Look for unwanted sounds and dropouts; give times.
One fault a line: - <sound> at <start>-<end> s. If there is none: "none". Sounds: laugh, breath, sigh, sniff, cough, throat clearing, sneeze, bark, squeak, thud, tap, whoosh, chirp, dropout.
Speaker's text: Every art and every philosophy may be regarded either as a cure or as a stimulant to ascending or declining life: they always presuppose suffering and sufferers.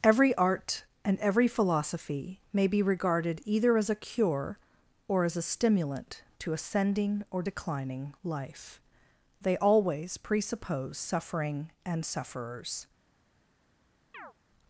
- chirp at 14.1-14.3 s